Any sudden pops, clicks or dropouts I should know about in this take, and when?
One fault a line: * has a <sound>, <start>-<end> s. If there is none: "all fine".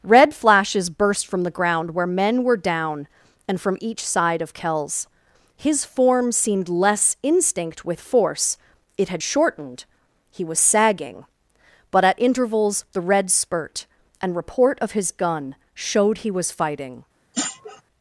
* has a sniff, 17.3-17.8 s